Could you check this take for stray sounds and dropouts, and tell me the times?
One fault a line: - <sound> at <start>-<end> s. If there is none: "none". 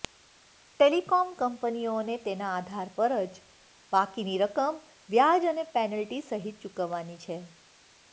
none